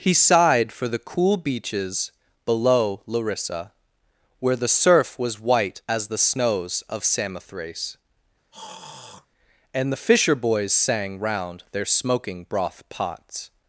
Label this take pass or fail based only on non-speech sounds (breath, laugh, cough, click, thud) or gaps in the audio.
fail